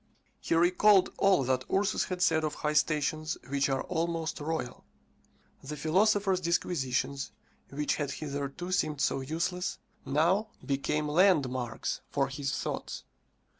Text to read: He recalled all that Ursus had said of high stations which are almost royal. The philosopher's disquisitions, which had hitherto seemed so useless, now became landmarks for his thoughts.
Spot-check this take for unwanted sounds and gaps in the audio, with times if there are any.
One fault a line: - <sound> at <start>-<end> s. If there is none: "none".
none